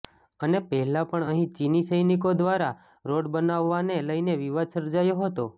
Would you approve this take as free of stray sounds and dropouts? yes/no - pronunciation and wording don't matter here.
yes